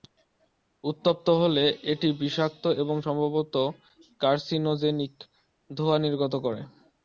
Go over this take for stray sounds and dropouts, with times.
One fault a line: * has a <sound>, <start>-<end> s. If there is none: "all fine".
all fine